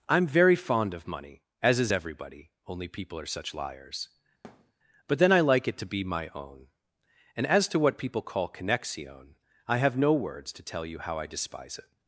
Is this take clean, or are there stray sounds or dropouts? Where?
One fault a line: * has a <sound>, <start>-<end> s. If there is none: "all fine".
* has a thud, 4.4-4.7 s